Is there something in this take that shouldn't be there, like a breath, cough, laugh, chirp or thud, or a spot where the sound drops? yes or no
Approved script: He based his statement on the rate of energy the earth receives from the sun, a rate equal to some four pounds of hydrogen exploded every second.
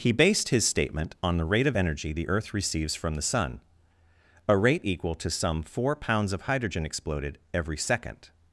no